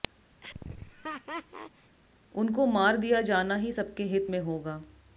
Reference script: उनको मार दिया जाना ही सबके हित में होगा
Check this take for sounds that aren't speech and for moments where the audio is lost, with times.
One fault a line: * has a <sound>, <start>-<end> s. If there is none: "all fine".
* has a laugh, 0.4-2.0 s